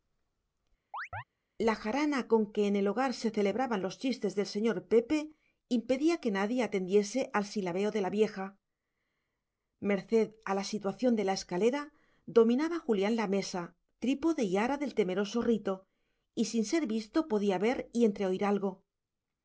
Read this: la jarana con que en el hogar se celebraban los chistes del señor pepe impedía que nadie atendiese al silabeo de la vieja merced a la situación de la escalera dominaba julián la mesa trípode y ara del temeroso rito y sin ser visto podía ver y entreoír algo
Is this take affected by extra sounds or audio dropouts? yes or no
yes